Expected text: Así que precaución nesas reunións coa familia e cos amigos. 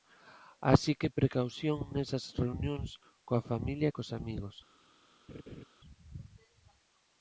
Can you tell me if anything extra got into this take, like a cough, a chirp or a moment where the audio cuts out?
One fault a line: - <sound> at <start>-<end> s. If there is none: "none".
- laugh at 5.3-5.6 s